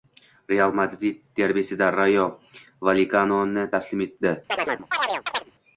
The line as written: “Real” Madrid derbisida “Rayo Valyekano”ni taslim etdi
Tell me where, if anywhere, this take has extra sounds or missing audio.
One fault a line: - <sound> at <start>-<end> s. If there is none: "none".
- chirp at 4.5-5.5 s